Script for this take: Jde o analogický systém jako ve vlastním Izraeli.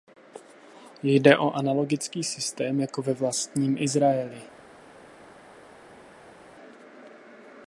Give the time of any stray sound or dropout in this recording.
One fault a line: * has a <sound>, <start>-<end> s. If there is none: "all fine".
all fine